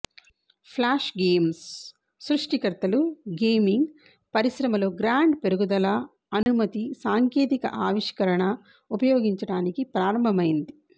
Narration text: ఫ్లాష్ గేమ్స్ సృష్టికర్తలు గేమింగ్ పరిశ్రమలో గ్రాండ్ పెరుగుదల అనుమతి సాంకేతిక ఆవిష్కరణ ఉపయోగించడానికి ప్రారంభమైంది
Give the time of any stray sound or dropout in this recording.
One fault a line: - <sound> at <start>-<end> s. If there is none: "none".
- dropout at 6.4-6.5 s